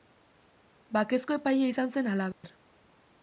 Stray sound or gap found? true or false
true